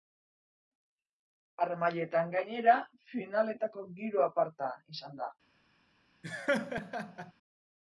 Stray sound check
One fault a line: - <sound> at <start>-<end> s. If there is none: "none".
- laugh at 6.2-7.3 s